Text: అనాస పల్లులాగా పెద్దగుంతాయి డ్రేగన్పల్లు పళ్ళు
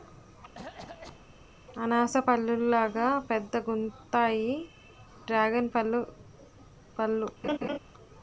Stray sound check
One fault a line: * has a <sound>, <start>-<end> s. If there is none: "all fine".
* has a cough, 0.5-1.3 s
* has a laugh, 7.4-7.8 s